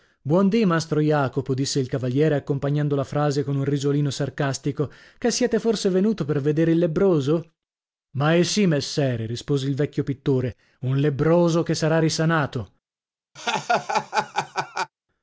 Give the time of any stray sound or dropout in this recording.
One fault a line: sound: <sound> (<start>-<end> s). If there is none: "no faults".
sound: laugh (13.4-14.9 s)